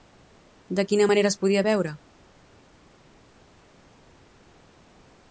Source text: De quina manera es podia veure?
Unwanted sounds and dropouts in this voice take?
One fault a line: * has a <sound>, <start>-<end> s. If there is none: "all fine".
all fine